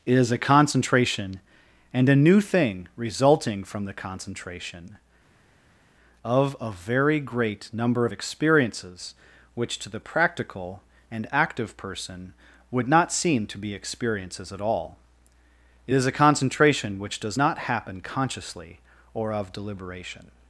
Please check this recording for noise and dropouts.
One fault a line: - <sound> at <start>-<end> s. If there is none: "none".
none